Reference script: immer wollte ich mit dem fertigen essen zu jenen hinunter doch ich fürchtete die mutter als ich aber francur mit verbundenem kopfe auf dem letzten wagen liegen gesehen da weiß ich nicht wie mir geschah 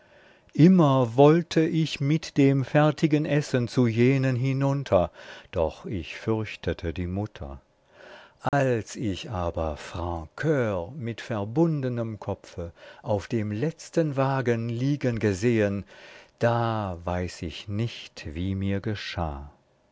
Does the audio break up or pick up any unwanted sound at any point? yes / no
yes